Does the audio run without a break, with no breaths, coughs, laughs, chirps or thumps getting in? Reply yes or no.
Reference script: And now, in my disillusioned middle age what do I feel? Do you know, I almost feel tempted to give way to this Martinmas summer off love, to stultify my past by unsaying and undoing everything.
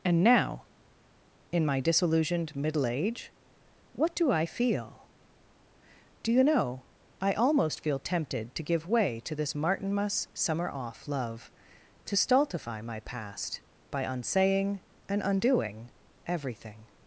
yes